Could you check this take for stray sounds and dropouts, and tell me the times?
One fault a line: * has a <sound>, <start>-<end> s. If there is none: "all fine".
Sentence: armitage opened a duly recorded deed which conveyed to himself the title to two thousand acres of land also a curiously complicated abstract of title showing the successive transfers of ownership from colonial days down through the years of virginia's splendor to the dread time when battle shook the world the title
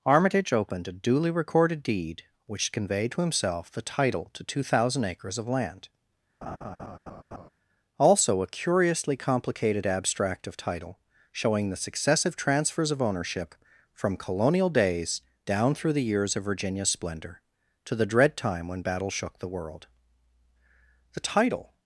* has a laugh, 6.4-7.5 s